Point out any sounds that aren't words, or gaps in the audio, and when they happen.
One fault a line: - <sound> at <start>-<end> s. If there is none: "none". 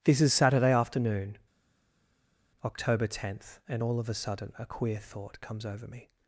none